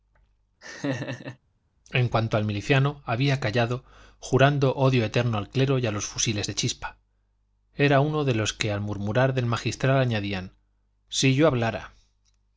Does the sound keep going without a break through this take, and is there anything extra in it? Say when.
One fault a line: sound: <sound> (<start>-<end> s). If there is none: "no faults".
sound: laugh (0.6-1.4 s)